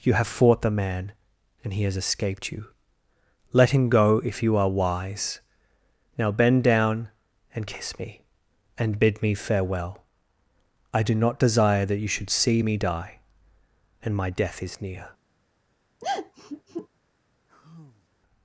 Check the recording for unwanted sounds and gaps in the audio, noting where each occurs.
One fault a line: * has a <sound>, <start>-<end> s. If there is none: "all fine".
* has a sigh, 16.0-16.9 s
* has a sigh, 17.5-18.1 s